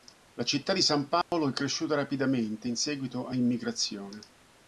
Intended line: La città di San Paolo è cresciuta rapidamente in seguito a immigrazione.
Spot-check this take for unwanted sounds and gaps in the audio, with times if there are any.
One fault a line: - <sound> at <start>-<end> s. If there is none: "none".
- dropout at 1.2-1.3 s